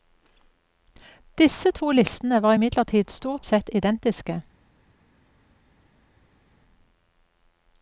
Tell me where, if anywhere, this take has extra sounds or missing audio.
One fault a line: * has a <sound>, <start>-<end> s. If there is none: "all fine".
all fine